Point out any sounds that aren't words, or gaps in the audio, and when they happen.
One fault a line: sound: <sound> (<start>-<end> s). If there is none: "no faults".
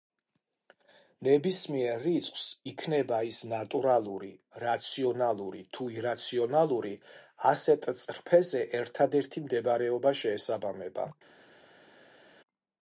no faults